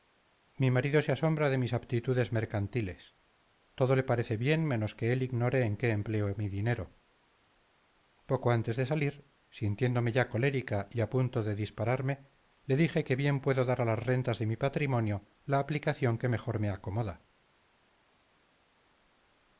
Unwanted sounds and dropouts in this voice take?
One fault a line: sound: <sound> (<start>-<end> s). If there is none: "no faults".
no faults